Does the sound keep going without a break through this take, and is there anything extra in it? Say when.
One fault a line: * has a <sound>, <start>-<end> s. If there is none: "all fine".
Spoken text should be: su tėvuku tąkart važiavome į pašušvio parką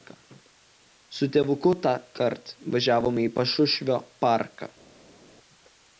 all fine